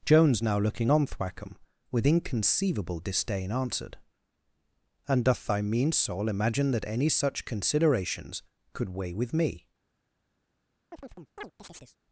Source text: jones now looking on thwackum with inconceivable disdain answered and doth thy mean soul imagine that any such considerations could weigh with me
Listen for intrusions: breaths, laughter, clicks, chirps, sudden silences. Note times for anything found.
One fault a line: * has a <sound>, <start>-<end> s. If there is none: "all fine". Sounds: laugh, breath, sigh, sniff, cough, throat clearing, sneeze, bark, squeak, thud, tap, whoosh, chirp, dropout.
* has a chirp, 10.9-12.0 s